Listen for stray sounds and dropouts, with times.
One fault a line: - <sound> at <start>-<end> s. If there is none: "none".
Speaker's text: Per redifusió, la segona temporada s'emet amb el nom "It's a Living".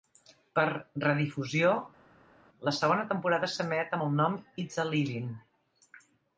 none